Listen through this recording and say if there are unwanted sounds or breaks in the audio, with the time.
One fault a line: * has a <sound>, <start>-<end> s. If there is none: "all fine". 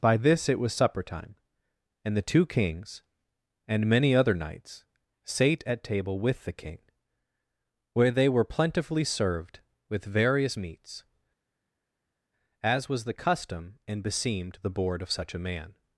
all fine